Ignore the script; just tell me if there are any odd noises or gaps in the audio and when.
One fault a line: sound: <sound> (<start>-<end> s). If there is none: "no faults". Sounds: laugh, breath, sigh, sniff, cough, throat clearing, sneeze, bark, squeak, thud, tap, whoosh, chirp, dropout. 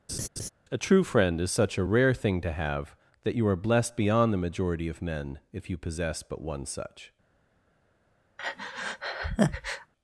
sound: laugh (0.1-0.5 s)
sound: breath (8.4-9.9 s)